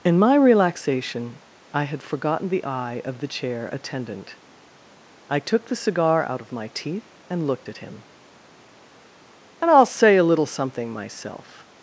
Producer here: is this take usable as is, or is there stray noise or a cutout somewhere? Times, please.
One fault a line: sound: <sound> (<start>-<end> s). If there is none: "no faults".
no faults